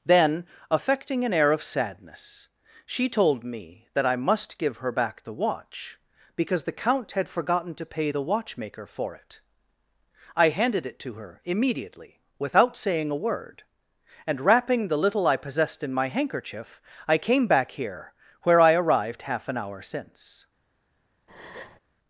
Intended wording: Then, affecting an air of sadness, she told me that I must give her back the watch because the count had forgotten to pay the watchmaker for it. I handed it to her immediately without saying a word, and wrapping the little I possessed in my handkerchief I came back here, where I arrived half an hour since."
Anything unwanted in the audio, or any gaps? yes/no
yes